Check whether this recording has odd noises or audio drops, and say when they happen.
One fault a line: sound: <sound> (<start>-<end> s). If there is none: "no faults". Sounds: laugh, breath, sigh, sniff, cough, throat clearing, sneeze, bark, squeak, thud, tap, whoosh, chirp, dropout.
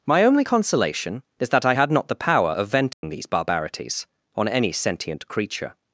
sound: dropout (2.9-3.0 s)